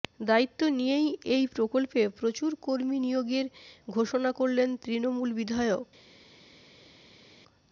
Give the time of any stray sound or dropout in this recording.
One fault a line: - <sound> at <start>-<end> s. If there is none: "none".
none